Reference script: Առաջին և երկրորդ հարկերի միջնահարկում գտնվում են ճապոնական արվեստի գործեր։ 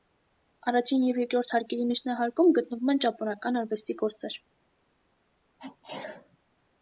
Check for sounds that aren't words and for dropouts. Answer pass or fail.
fail